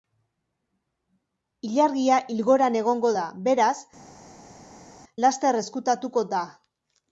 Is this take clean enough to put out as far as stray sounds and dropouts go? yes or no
yes